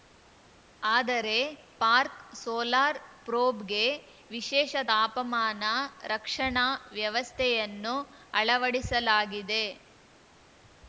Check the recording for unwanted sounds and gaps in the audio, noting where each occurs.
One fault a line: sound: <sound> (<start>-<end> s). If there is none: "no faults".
no faults